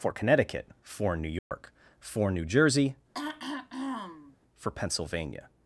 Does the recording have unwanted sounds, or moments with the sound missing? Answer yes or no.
yes